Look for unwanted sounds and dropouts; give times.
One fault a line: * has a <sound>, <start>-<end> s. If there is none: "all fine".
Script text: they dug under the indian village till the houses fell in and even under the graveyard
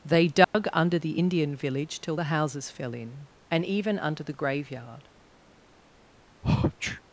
* has a dropout, 0.4-0.5 s
* has a sneeze, 6.4-7.0 s